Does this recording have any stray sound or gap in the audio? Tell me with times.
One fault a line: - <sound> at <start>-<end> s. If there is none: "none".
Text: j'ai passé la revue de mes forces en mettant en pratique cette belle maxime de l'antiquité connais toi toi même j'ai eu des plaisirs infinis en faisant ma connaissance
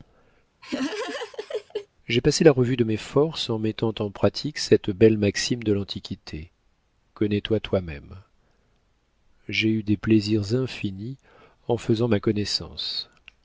- laugh at 0.6-1.9 s